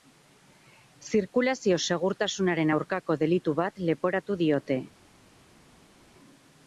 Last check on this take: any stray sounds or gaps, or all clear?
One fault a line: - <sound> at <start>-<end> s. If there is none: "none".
none